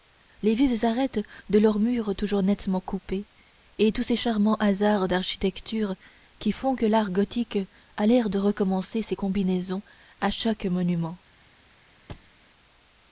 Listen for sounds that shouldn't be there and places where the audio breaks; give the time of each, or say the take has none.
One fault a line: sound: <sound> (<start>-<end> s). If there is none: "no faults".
sound: thud (12.1-12.3 s)